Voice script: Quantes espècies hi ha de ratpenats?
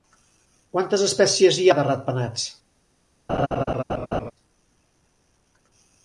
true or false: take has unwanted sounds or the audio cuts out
true